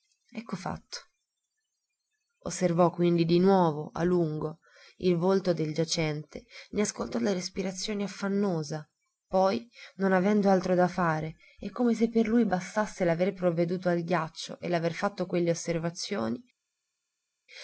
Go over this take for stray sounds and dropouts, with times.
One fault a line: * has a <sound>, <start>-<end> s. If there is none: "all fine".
all fine